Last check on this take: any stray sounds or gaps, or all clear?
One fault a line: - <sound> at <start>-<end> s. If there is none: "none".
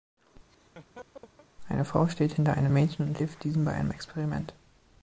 - laugh at 0.5-1.5 s